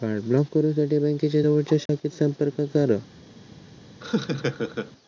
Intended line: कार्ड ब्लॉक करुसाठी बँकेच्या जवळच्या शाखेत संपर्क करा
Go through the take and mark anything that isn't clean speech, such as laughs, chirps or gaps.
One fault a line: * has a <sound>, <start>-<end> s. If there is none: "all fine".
* has a dropout, 1.9-1.9 s
* has a laugh, 4.0-4.9 s